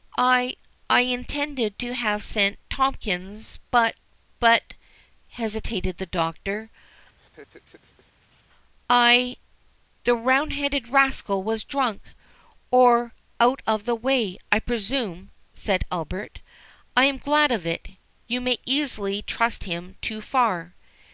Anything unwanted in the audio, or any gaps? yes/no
yes